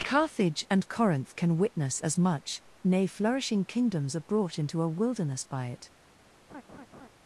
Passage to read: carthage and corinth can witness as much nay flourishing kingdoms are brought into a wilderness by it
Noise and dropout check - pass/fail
fail